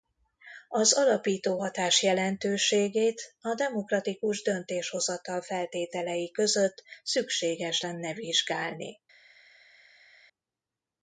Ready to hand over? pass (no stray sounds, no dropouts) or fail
pass